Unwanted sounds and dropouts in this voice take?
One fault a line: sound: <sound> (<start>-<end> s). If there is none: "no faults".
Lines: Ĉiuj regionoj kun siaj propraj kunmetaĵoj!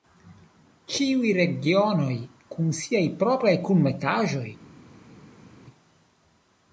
no faults